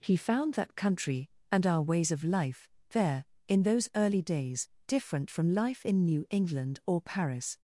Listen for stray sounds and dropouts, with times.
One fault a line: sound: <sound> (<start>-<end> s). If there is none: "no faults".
no faults